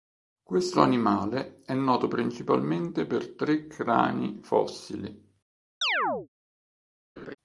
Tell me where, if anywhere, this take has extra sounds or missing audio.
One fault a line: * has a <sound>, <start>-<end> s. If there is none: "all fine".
* has a chirp, 5.8-6.3 s
* has a laugh, 7.2-7.4 s